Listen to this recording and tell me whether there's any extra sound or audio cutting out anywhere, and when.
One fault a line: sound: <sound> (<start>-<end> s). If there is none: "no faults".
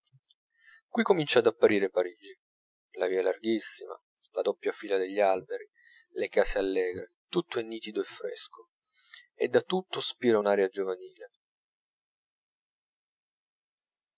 no faults